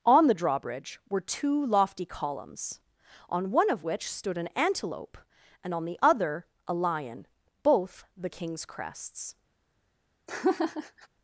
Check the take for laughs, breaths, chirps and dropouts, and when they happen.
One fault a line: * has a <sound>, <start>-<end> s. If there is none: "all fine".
* has a laugh, 10.3-11.1 s